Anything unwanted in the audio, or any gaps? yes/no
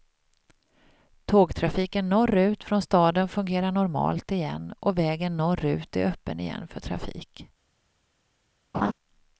yes